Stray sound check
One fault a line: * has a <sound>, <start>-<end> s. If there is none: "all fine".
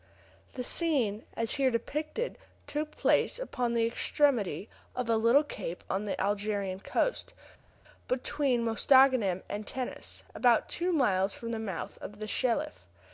all fine